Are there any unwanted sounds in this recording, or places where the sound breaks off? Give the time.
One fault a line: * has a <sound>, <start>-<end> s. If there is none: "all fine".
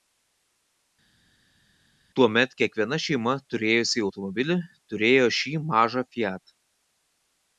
all fine